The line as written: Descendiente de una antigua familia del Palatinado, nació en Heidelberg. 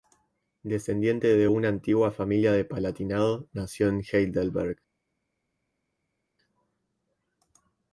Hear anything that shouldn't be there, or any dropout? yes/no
no